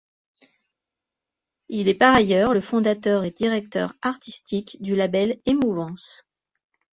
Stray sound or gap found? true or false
false